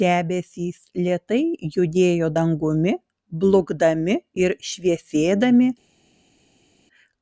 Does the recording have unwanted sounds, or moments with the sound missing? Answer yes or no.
no